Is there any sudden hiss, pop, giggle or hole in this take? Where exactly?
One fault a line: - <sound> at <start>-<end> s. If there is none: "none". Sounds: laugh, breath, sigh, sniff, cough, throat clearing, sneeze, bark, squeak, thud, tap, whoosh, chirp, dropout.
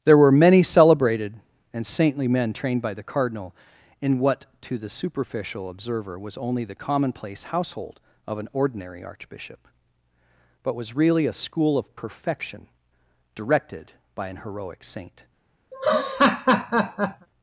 - laugh at 15.7-17.3 s